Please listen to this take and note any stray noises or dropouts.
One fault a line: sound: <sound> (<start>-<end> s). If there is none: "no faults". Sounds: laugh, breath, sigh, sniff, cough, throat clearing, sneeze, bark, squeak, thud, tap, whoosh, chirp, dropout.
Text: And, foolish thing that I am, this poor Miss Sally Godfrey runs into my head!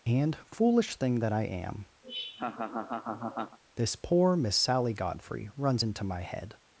sound: laugh (2.0-3.6 s)